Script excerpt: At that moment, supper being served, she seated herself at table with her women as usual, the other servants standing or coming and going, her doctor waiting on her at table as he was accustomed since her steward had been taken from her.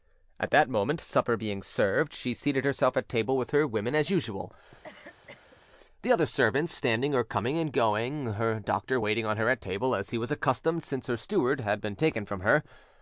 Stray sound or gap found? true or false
true